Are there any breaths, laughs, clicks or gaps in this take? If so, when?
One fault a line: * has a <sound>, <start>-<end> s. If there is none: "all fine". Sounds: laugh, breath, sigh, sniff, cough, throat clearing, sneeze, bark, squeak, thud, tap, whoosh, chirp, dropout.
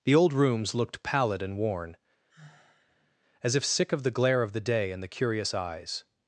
* has a sigh, 2.3-3.2 s